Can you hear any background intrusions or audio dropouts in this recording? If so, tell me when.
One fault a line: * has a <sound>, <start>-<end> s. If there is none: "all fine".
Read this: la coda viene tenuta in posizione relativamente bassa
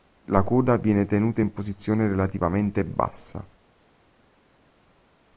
all fine